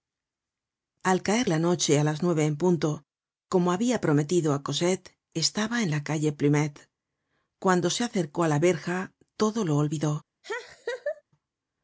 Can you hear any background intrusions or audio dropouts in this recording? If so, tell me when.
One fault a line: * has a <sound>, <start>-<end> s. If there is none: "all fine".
* has a laugh, 10.4-11.2 s